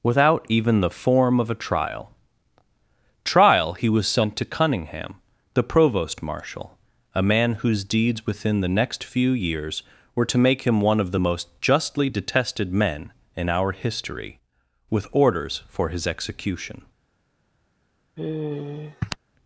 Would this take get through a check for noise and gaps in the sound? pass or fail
fail